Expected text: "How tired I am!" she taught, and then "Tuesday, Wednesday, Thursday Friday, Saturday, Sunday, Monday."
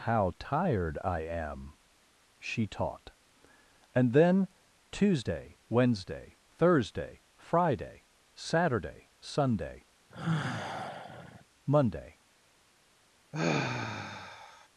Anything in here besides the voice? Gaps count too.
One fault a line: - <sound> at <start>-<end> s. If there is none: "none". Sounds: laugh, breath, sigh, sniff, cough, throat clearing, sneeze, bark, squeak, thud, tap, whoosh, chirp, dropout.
- sigh at 10.1-11.4 s
- sigh at 13.3-14.7 s